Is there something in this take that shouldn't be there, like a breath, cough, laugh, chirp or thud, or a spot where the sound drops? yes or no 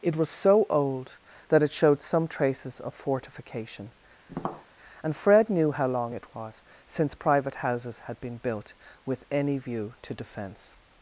yes